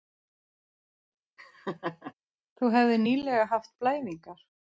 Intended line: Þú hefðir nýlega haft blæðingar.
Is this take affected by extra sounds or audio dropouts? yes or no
yes